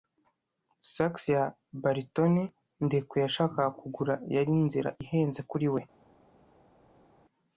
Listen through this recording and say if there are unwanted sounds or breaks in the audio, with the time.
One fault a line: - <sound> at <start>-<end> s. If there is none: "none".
none